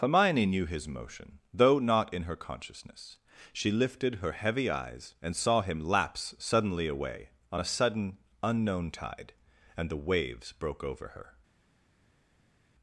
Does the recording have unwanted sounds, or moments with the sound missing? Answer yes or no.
no